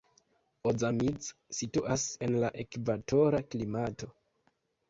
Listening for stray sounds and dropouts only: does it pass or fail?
pass